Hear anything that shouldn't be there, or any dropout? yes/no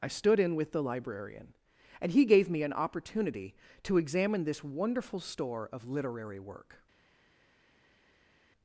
no